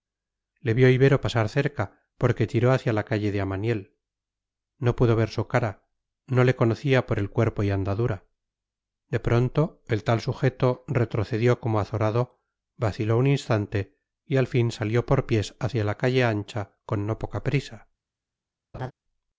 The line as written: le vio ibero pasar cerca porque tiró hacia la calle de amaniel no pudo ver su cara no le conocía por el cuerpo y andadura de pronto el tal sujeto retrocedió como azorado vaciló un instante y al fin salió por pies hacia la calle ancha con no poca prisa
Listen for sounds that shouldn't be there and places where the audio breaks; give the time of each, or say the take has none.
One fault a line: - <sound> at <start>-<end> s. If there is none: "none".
- laugh at 18.7-18.9 s